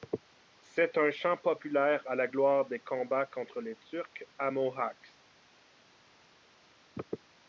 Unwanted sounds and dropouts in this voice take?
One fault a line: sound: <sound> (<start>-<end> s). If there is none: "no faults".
no faults